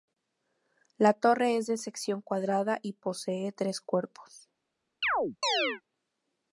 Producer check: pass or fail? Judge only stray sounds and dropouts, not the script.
fail